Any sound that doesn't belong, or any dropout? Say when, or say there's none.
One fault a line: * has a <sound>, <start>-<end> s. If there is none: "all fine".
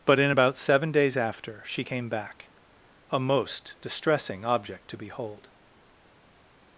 all fine